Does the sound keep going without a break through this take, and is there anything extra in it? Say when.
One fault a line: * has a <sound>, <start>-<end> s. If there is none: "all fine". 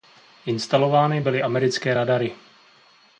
all fine